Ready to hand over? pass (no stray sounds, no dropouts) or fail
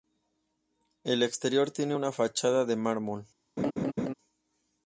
fail